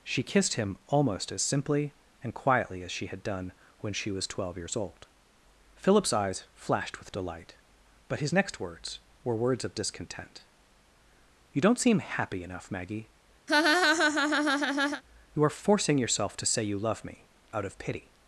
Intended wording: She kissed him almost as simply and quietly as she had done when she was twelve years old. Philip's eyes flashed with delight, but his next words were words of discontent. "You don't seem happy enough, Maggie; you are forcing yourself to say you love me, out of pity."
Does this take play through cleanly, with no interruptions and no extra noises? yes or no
no